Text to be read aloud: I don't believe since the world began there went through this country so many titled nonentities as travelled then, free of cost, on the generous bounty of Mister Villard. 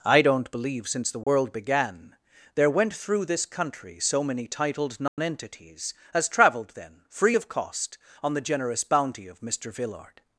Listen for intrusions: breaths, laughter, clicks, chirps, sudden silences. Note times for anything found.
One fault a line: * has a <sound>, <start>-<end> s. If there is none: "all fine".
* has a dropout, 1.2-1.3 s
* has a dropout, 5.1-5.2 s